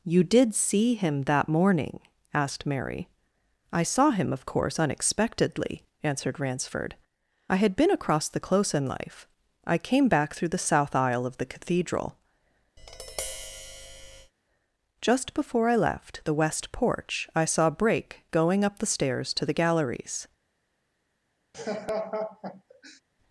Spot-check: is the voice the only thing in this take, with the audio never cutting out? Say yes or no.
no